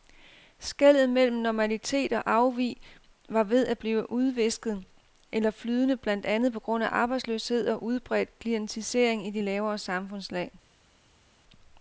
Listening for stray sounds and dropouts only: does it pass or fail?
pass